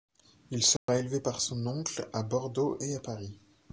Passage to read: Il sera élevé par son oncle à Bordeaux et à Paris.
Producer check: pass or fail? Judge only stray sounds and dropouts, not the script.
fail